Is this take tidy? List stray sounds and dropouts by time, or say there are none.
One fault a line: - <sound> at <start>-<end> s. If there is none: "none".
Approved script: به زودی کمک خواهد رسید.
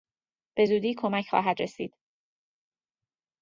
none